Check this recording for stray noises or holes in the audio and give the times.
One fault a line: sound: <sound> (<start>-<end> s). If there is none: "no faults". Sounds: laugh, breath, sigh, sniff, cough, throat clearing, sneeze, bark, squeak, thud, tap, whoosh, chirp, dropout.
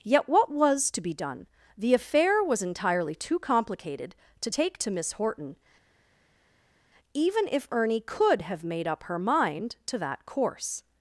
no faults